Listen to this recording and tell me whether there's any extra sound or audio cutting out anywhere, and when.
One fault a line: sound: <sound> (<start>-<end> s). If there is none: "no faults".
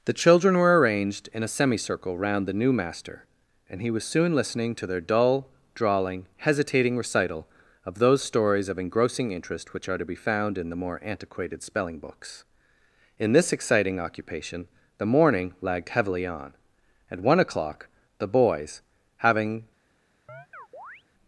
sound: chirp (20.3-21.0 s)